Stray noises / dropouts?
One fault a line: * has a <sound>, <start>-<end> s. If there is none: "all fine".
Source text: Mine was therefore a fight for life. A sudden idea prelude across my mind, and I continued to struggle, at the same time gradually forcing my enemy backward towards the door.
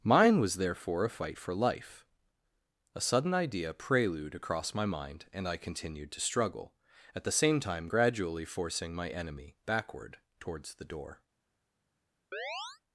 * has a chirp, 12.3-12.8 s